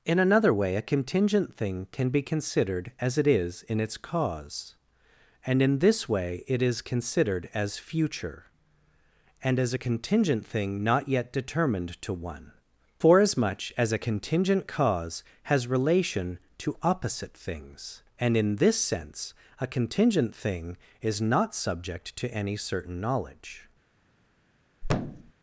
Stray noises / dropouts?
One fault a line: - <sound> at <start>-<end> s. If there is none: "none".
- thud at 24.8-25.3 s